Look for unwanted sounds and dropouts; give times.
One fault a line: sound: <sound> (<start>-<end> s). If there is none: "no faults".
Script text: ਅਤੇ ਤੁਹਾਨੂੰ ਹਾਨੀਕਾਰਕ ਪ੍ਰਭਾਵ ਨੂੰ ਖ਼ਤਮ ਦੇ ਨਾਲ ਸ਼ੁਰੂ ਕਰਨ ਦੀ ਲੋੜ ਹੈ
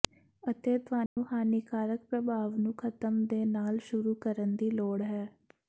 sound: dropout (1.1-1.2 s)